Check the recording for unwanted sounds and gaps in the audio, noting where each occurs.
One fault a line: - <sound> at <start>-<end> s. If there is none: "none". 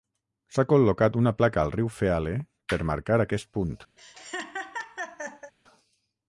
- laugh at 4.0-5.5 s